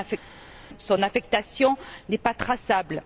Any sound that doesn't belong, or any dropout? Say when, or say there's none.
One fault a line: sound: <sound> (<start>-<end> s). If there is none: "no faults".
no faults